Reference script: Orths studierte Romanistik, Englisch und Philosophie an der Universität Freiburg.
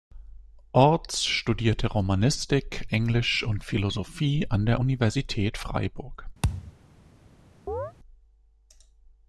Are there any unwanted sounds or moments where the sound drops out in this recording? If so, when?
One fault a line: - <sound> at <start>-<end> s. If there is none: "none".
- thud at 6.4-6.7 s
- chirp at 7.7-7.9 s